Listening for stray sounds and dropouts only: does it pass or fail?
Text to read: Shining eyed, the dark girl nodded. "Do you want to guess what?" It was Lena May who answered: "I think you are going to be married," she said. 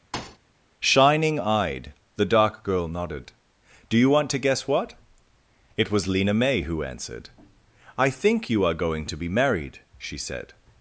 fail